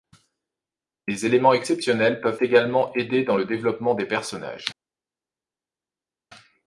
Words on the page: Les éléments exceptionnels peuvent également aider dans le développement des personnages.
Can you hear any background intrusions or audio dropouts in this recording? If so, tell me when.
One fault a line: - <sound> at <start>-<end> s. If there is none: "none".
none